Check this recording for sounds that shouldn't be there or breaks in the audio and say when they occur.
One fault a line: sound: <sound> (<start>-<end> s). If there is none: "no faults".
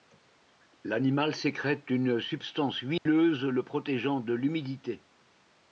sound: dropout (3.0-3.1 s)